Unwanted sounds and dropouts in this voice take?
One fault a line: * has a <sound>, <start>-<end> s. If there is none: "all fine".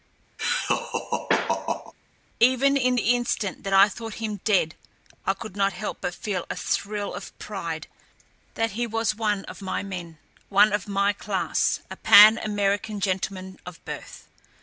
* has a laugh, 0.4-1.9 s